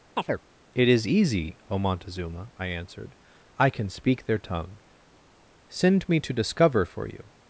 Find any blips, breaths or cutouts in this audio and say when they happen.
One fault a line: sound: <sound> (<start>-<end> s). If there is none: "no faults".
sound: chirp (0.2-0.4 s)